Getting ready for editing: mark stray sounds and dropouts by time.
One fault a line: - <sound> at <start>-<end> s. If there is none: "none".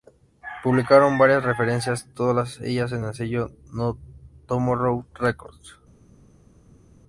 none